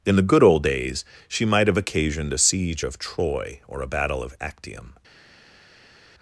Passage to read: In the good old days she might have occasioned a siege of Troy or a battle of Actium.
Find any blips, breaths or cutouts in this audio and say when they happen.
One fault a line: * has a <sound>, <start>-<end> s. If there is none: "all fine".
all fine